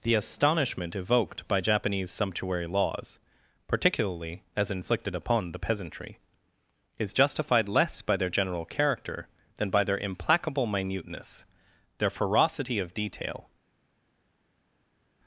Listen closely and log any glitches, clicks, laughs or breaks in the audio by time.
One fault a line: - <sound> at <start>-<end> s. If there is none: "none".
none